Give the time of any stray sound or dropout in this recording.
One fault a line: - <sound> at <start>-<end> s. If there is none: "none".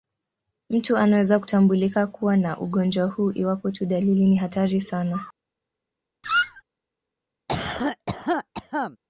- squeak at 6.2-6.6 s
- cough at 7.5-9.0 s